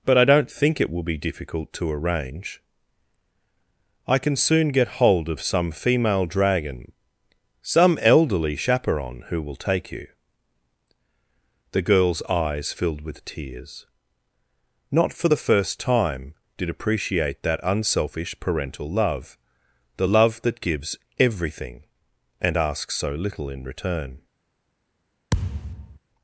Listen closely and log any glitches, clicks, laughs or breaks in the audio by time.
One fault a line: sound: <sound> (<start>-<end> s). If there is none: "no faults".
sound: thud (25.3-26.0 s)